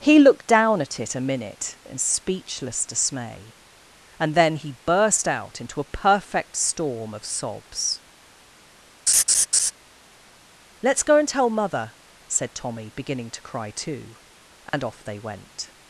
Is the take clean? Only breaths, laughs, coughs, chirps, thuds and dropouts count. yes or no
no